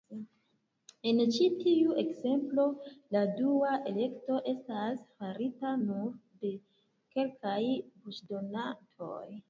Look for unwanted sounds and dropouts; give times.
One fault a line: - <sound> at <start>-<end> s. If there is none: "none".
none